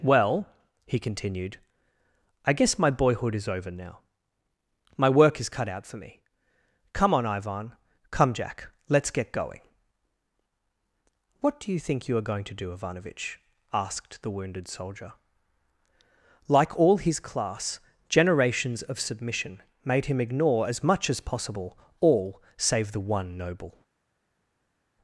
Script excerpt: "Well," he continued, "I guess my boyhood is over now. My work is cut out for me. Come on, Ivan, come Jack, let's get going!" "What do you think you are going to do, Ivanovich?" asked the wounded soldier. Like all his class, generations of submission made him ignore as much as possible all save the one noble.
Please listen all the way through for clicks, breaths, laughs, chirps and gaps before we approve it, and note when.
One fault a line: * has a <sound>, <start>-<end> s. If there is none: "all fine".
all fine